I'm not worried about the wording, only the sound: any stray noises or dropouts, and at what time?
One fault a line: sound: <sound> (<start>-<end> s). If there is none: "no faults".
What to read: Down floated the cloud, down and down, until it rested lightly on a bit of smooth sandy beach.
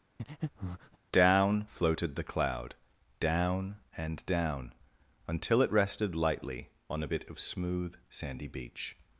sound: breath (0.2-1.0 s)